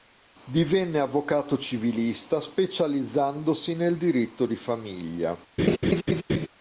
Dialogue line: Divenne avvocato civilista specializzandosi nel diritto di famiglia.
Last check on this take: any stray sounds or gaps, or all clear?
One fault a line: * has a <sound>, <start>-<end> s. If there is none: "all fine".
* has a laugh, 5.6-6.5 s